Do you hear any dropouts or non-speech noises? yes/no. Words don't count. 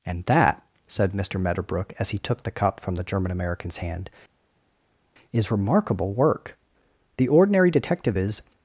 no